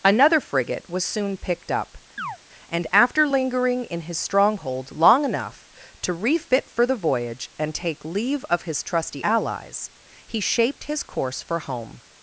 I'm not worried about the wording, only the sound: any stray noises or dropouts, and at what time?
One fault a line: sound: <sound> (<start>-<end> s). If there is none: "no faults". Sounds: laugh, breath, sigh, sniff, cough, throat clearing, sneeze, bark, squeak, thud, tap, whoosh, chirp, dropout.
sound: chirp (2.2-2.4 s)